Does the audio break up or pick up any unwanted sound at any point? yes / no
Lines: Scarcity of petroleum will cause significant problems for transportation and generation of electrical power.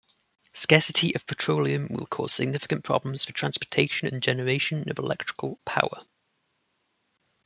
no